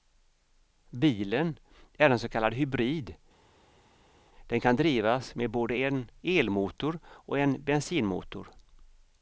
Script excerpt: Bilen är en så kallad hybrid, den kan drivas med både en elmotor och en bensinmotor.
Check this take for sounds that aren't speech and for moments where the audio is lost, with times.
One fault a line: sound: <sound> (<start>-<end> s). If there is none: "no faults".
no faults